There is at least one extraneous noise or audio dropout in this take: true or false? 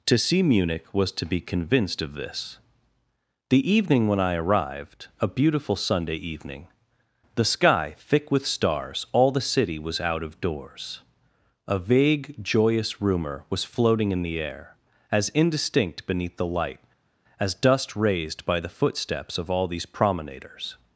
false